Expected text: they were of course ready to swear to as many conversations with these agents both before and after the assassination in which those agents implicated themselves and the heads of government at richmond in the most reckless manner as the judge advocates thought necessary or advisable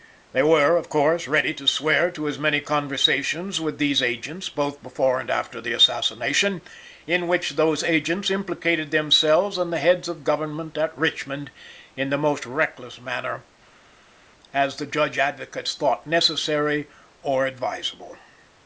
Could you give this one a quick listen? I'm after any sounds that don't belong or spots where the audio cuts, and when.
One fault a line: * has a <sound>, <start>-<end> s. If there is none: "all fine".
all fine